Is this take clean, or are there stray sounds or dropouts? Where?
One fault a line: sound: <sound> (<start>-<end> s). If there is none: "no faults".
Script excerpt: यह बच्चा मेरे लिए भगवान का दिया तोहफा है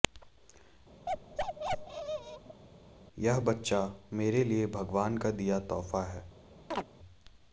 sound: bark (1.1-2.6 s)
sound: chirp (6.7-6.8 s)